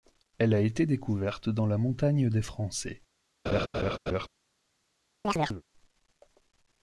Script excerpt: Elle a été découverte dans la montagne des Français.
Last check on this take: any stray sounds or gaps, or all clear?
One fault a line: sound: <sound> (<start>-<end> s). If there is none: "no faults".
sound: laugh (3.4-4.3 s)
sound: chirp (5.2-5.6 s)